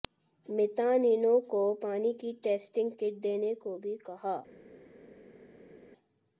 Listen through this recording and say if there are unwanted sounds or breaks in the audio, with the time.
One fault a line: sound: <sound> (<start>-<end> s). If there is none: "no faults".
no faults